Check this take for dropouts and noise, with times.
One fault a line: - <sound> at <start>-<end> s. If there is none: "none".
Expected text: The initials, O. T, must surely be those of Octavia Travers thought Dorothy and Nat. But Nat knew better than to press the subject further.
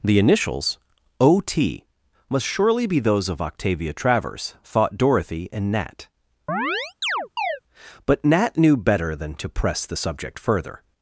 - chirp at 6.5-7.6 s